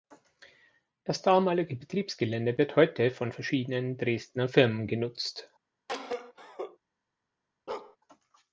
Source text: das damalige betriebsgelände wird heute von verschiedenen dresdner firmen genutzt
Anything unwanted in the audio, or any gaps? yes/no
yes